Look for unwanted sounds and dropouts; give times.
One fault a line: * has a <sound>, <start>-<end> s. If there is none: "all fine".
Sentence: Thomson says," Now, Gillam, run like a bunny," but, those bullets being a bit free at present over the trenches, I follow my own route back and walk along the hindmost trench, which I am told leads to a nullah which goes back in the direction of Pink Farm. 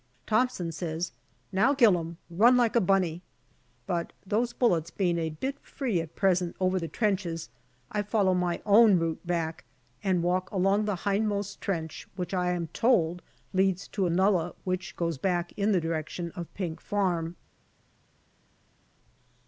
all fine